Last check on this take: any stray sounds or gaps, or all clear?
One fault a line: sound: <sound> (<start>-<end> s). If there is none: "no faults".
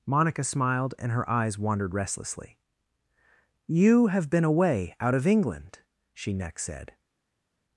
no faults